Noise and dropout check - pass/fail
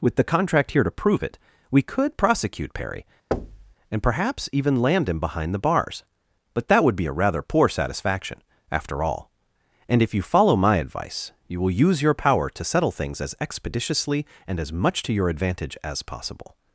fail